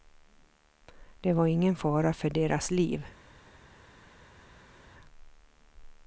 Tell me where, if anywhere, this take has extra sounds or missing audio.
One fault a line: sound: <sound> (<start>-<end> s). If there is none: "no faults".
no faults